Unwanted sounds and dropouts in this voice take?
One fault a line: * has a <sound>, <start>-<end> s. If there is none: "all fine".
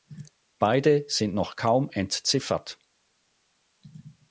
all fine